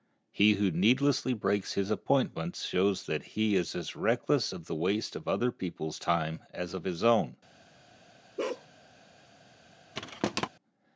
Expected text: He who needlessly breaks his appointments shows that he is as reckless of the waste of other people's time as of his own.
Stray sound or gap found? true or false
true